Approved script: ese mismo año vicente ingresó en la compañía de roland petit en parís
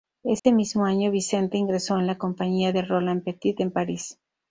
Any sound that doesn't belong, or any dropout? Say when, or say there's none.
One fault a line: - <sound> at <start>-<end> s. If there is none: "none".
- dropout at 0.4-0.4 s